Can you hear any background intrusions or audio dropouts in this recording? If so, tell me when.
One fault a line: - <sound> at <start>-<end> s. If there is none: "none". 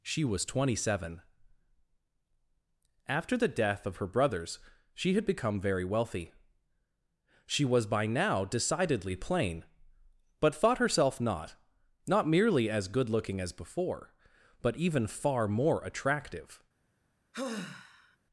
- sigh at 17.3-18.2 s